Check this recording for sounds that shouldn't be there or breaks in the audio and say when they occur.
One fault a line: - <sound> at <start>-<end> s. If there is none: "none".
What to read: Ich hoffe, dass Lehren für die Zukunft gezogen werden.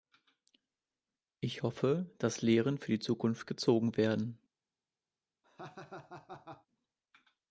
- laugh at 5.4-6.7 s